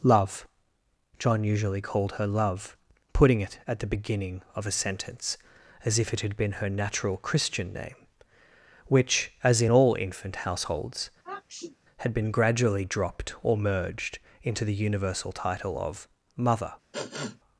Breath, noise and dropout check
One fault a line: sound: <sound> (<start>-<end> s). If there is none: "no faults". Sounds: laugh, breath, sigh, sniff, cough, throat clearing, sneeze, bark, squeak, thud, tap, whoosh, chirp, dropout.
sound: sniff (11.2-11.8 s)
sound: sniff (16.9-17.4 s)